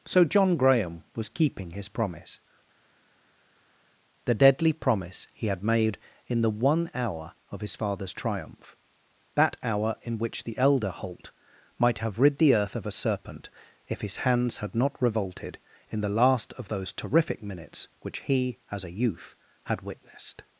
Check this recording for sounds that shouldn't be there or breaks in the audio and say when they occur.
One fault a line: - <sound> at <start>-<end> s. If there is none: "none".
none